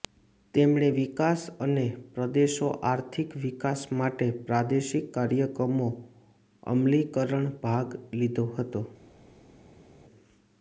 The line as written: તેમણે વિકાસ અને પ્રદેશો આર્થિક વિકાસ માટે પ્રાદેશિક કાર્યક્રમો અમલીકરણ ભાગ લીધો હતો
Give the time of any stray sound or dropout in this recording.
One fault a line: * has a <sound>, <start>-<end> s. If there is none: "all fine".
all fine